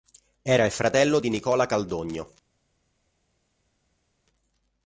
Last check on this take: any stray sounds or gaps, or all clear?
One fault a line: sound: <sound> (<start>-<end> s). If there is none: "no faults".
no faults